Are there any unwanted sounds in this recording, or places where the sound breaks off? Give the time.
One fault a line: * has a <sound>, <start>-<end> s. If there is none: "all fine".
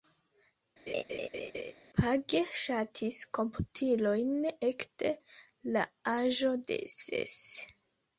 * has a laugh, 0.9-1.7 s